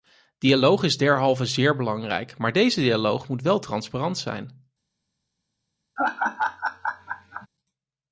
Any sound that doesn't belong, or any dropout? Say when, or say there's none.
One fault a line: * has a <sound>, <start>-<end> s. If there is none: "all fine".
* has a laugh, 6.0-7.5 s